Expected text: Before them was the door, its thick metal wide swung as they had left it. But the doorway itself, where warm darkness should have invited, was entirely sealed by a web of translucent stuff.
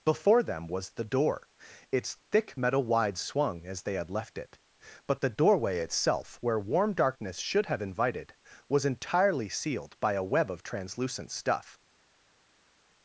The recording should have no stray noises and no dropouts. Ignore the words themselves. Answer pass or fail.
pass